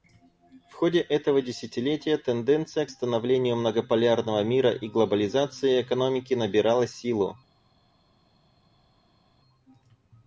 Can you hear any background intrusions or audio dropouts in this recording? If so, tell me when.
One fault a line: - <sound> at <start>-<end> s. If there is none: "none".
none